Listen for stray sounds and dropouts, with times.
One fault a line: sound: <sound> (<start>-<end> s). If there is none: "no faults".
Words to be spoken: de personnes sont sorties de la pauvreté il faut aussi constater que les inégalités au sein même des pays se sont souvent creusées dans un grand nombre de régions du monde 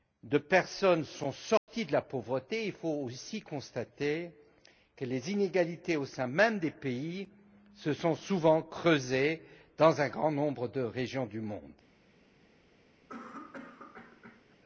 sound: dropout (1.6-1.7 s)
sound: cough (13.1-14.6 s)